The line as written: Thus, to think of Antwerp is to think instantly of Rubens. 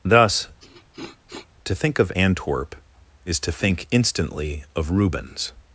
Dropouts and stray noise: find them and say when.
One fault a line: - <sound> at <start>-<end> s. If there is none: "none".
- sniff at 0.6-1.5 s